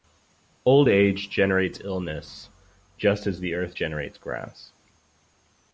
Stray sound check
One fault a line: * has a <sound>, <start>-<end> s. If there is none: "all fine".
all fine